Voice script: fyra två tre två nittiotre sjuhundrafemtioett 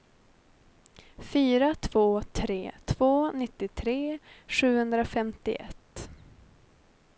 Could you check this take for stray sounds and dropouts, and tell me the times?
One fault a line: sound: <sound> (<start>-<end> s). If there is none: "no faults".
no faults